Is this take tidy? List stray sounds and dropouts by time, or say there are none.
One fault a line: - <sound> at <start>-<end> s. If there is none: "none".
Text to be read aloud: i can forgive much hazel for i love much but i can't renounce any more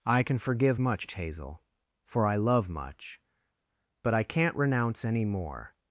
none